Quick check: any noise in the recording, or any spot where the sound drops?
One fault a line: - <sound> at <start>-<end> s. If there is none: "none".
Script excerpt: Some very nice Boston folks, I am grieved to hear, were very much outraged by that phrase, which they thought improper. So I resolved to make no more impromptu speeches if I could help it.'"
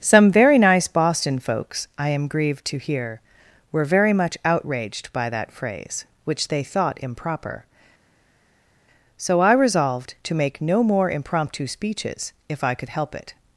none